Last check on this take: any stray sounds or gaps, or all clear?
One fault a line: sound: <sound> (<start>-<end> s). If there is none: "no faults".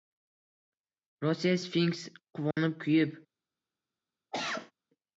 sound: dropout (2.5-2.6 s)
sound: cough (4.3-4.7 s)